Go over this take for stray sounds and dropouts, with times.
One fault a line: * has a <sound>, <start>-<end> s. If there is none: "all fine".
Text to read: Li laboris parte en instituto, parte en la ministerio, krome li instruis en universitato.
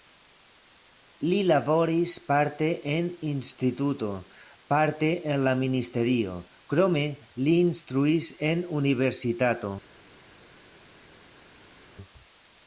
all fine